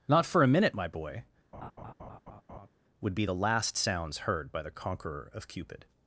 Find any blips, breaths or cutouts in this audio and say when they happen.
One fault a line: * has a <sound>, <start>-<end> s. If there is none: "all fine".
* has a laugh, 1.5-2.7 s